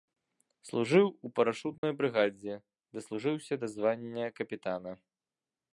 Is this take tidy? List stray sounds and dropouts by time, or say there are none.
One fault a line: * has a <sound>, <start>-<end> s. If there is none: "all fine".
* has a dropout, 1.8-1.8 s